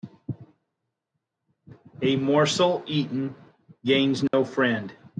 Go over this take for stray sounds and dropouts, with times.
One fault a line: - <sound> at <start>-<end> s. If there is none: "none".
- dropout at 4.3-4.3 s